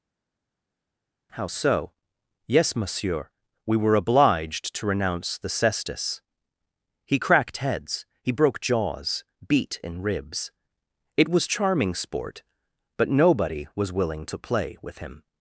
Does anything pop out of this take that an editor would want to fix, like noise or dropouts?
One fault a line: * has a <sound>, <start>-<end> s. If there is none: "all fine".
all fine